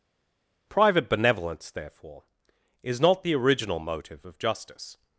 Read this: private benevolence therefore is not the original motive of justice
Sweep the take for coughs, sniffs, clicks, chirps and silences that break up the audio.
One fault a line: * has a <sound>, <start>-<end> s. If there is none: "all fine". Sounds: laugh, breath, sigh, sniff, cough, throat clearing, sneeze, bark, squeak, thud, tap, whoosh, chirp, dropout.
all fine